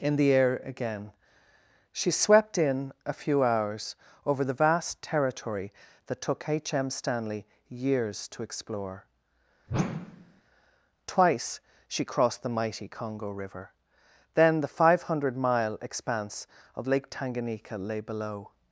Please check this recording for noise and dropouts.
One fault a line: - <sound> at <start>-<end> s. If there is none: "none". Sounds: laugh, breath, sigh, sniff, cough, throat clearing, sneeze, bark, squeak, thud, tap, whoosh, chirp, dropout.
- whoosh at 9.7-10.4 s